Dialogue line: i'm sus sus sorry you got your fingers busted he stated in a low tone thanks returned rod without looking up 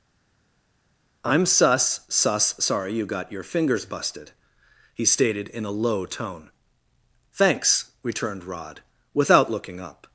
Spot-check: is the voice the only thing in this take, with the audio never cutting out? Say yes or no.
yes